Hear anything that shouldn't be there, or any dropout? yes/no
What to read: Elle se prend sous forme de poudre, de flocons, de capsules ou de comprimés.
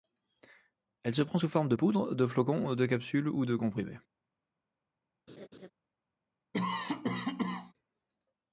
yes